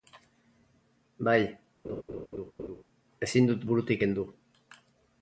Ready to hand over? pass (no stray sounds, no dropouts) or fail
fail